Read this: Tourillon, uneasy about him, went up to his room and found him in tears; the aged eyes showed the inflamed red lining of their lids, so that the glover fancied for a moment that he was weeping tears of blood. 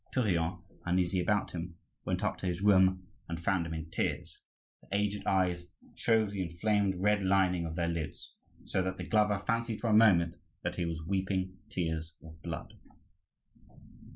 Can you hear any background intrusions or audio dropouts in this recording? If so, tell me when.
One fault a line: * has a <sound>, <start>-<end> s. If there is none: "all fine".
all fine